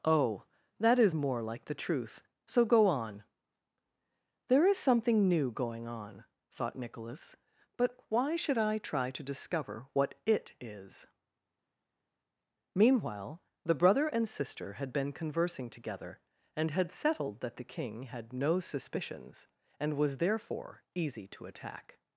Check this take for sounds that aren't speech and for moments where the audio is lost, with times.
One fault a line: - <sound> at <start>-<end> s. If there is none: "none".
none